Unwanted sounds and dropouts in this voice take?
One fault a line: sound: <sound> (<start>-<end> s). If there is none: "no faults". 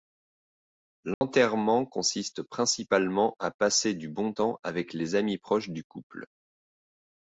sound: dropout (1.1-1.2 s)